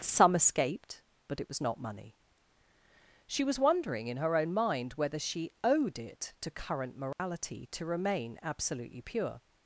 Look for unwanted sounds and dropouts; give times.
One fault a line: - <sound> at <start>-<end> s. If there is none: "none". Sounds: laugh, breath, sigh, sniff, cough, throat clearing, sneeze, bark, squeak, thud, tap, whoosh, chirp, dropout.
- dropout at 7.1-7.2 s